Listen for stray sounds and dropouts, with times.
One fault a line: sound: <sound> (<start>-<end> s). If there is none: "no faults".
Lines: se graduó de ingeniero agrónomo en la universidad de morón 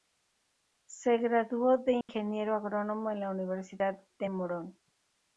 sound: dropout (2.0-2.1 s)